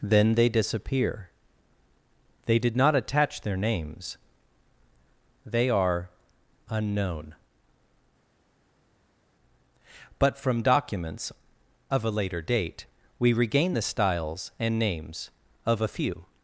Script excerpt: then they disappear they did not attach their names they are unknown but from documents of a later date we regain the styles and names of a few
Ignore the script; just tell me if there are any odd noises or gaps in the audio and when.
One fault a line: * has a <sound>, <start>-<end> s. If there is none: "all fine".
all fine